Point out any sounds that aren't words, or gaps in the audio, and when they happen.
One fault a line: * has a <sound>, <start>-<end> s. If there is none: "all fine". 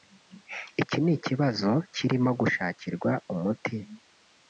all fine